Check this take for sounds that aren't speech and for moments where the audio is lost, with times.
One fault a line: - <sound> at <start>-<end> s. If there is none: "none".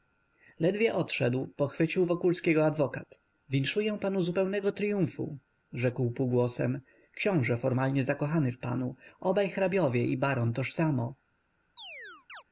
- chirp at 11.8-12.4 s